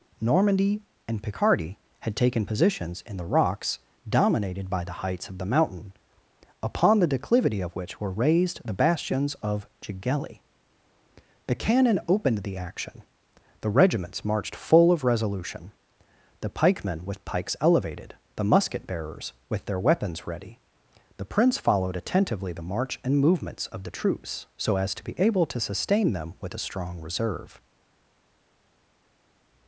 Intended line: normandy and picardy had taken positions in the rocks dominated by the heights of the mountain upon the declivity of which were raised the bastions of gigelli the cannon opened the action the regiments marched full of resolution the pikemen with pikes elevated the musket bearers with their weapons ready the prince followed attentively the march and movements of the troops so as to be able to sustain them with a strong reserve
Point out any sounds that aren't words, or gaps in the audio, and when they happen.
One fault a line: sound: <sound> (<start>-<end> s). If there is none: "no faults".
no faults